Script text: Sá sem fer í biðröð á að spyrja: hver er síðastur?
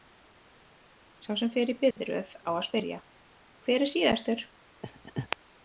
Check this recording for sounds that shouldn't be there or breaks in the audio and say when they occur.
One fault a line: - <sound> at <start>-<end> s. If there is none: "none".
- dropout at 1.9-2.0 s
- laugh at 4.8-5.4 s